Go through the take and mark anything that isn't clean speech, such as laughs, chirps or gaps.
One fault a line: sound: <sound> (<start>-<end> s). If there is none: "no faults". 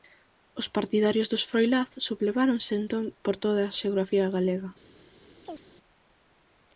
sound: chirp (5.4-5.6 s)